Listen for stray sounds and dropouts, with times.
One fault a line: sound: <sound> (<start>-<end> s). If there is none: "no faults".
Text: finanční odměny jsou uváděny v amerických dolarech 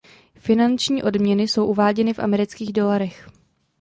no faults